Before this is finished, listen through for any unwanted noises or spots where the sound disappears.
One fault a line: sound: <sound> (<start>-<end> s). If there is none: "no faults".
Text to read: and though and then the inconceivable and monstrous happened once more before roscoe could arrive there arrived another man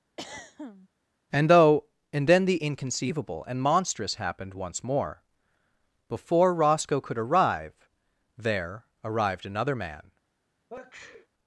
sound: throat clearing (0.2-0.9 s)
sound: sneeze (10.7-11.3 s)